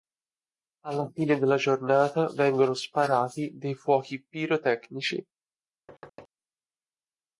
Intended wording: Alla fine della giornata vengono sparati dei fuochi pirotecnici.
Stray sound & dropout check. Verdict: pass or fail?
fail